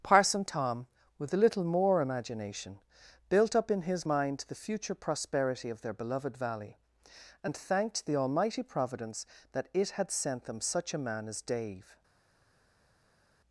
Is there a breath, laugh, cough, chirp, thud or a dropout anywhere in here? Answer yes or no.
no